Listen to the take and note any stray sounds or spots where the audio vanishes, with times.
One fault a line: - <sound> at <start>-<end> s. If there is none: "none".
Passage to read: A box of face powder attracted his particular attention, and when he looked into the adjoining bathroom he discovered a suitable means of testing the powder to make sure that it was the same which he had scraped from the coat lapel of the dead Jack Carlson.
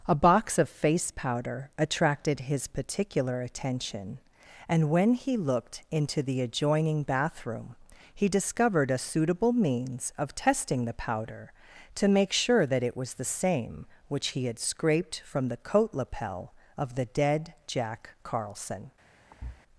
- thud at 19.3-19.6 s